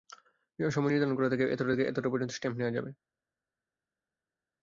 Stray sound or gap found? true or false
false